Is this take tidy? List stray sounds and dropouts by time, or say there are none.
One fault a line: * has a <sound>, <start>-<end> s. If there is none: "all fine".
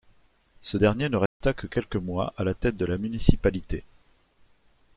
* has a dropout, 1.3-1.4 s